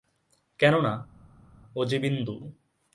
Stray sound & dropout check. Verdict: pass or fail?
pass